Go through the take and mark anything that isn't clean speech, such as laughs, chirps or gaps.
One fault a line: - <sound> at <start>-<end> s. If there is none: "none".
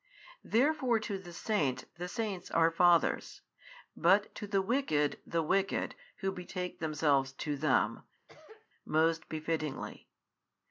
- cough at 8.3-8.7 s